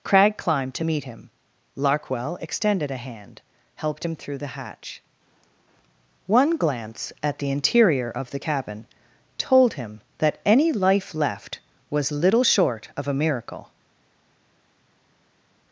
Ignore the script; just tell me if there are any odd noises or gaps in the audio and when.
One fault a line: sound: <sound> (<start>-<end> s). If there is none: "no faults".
no faults